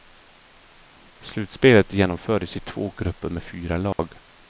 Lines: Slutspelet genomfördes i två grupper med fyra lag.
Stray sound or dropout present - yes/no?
yes